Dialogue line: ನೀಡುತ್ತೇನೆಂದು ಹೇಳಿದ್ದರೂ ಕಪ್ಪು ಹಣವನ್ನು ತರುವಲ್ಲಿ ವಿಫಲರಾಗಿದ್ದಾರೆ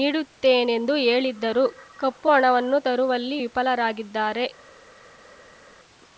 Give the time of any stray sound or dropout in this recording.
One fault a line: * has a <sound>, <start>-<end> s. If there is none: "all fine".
all fine